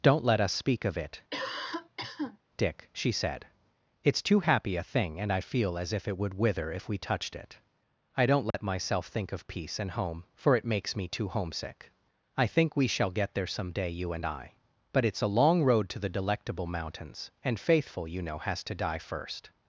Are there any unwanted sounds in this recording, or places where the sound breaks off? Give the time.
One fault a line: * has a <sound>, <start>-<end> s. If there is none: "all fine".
* has a cough, 1.3-2.4 s
* has a dropout, 8.5-8.5 s